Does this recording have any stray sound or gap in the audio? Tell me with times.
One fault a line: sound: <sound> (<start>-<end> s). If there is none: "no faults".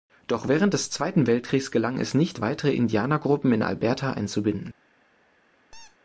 sound: squeak (5.7-6.0 s)